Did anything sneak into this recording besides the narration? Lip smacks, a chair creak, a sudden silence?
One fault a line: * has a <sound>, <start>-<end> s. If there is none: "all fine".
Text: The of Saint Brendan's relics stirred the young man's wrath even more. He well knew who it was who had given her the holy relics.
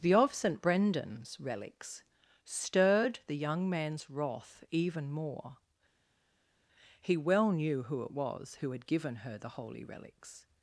all fine